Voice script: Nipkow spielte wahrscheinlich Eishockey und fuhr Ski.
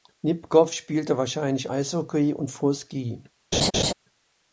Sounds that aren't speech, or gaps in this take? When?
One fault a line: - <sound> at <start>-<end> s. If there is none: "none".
- laugh at 3.5-3.9 s